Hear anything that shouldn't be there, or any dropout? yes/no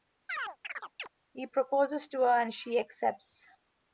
yes